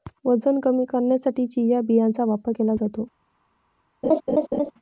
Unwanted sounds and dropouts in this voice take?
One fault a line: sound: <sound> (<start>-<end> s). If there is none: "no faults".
sound: laugh (4.0-4.7 s)